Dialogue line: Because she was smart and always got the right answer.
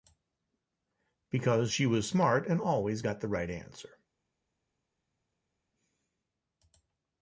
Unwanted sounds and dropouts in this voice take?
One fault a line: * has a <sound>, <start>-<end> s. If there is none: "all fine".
all fine